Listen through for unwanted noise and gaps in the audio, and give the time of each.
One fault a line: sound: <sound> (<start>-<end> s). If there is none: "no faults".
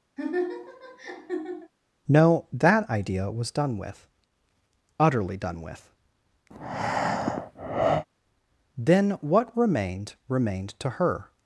sound: laugh (0.2-1.7 s)
sound: breath (6.5-8.1 s)